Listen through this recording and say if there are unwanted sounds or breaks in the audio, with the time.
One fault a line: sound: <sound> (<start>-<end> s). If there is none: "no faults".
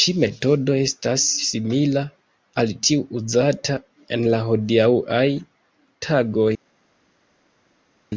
no faults